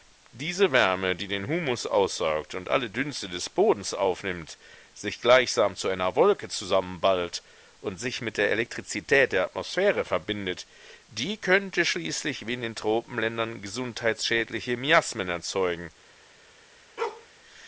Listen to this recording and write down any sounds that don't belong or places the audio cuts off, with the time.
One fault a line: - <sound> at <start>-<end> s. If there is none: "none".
- bark at 17.0-17.3 s